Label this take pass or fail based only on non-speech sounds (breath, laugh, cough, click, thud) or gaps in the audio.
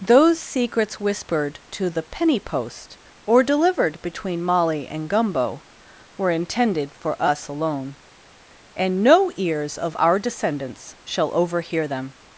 pass